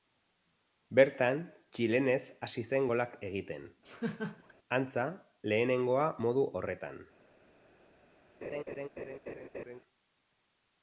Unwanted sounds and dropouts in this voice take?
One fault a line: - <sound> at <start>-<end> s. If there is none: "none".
- laugh at 3.8-4.5 s
- laugh at 8.4-9.8 s